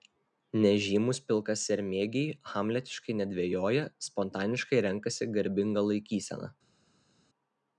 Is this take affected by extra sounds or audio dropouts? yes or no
no